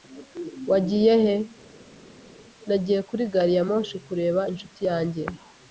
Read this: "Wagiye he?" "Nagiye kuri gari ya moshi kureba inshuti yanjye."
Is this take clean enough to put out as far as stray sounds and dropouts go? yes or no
yes